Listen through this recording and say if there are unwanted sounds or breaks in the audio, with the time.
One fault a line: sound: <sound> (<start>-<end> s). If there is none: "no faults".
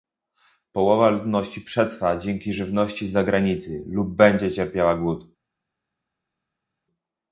no faults